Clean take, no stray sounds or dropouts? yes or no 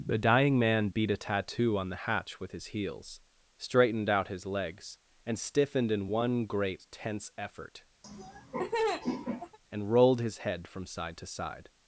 no